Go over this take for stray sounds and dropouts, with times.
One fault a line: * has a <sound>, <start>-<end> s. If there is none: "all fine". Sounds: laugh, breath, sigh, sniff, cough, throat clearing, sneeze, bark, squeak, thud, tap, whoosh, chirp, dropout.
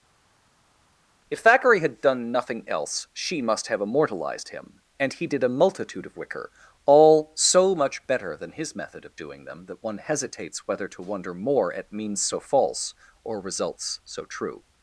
all fine